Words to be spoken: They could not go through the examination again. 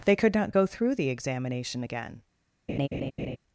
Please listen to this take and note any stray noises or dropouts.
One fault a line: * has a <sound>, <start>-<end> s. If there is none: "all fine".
* has a laugh, 2.7-3.4 s